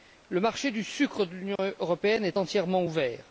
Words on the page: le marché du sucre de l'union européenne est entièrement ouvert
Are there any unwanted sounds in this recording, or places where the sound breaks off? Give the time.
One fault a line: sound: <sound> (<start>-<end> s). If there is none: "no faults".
sound: dropout (1.6-1.6 s)